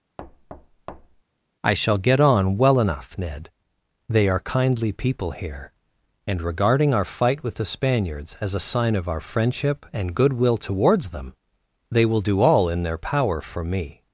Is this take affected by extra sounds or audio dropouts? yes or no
yes